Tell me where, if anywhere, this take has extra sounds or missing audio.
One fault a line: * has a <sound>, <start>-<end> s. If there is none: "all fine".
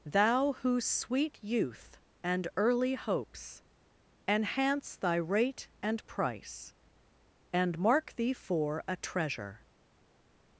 all fine